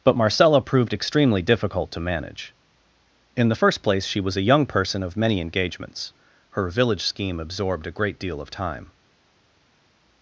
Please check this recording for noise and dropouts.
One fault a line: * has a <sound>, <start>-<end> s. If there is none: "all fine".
all fine